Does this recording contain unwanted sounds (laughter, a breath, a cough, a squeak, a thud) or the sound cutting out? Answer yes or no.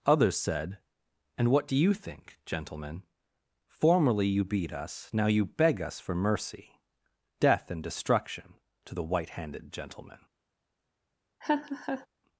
yes